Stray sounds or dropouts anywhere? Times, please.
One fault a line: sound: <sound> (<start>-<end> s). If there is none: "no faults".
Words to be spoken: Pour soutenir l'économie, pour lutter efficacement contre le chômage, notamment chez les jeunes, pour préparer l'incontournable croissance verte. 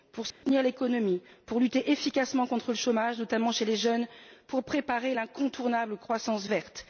sound: dropout (0.3-0.4 s)